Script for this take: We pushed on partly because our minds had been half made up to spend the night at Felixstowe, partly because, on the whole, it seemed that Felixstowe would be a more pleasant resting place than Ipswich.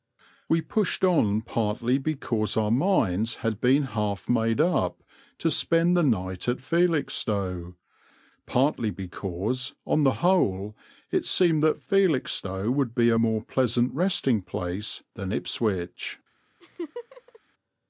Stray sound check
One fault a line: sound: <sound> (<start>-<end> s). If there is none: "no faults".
sound: laugh (16.6-17.4 s)